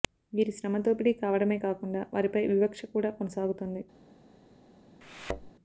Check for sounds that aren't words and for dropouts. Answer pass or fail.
fail